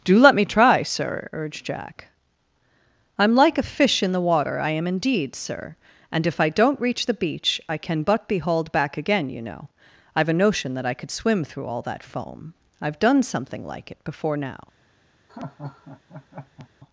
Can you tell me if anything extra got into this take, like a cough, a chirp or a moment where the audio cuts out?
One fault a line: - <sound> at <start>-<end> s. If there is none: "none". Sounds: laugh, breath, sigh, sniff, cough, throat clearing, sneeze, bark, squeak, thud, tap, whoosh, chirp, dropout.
- laugh at 15.3-16.7 s